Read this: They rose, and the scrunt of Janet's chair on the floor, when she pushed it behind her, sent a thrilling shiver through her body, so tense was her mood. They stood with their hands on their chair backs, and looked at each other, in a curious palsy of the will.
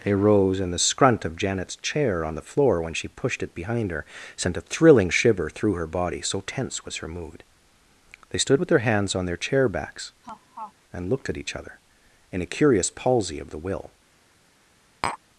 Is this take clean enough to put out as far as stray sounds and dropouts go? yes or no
no